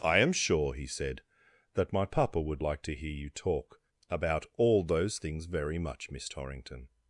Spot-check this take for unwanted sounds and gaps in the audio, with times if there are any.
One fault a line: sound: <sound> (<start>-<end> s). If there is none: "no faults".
no faults